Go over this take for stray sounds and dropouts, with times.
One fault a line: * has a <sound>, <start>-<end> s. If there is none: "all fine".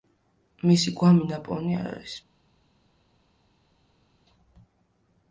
all fine